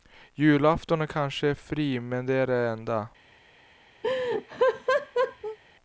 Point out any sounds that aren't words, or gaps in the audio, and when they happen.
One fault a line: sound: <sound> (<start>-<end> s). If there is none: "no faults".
sound: laugh (4.0-5.6 s)